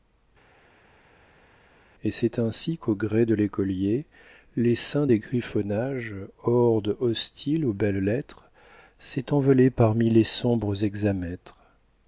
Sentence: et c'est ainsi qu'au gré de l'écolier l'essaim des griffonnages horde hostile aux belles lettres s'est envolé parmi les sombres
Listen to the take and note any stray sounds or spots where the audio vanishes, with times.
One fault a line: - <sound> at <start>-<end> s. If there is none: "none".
none